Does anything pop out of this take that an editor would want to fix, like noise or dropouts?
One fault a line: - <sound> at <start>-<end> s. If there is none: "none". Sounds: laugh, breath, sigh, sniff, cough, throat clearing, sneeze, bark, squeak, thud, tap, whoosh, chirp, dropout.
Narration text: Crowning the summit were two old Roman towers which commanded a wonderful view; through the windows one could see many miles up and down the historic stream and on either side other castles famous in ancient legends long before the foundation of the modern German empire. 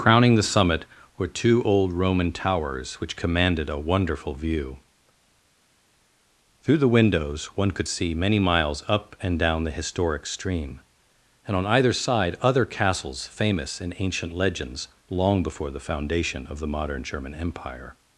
none